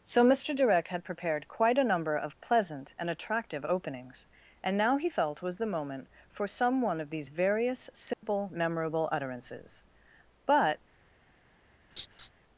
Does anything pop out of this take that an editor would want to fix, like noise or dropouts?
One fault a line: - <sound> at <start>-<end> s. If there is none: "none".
- dropout at 8.1-8.2 s
- laugh at 11.9-12.3 s